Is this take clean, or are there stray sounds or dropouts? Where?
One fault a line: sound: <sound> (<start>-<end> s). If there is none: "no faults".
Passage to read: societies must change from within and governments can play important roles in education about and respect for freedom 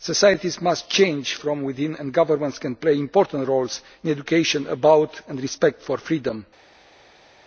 no faults